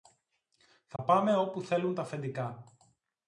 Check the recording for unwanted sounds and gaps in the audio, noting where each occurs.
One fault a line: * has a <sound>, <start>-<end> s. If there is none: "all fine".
* has a dropout, 1.0-1.0 s